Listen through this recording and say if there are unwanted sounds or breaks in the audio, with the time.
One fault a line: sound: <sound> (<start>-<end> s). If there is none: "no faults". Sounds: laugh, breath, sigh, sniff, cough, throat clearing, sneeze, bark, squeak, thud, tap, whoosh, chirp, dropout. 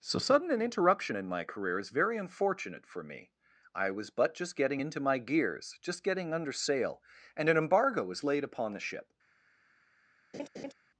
sound: laugh (10.3-10.7 s)